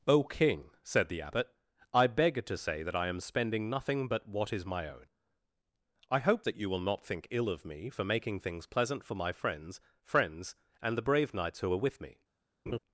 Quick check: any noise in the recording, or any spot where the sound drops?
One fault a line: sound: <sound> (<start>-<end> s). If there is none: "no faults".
sound: laugh (12.7-12.8 s)